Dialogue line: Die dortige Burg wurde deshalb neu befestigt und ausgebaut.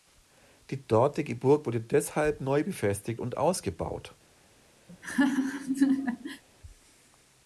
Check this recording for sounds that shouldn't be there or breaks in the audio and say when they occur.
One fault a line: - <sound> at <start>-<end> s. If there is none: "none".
- laugh at 4.9-6.4 s